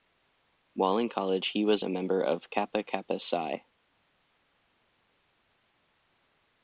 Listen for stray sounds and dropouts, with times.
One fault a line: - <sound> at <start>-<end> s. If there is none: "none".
none